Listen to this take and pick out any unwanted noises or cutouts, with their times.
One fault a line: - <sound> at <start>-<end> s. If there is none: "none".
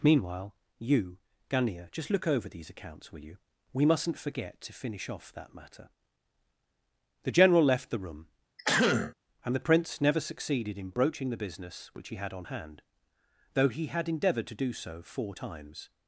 - throat clearing at 8.6-9.1 s